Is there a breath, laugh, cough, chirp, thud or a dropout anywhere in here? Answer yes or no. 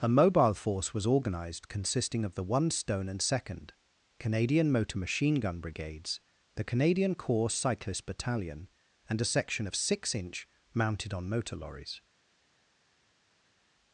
no